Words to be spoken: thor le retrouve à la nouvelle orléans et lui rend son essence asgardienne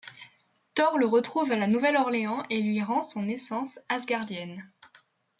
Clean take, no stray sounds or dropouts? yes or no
yes